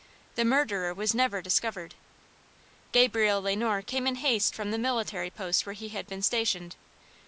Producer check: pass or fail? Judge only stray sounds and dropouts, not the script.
pass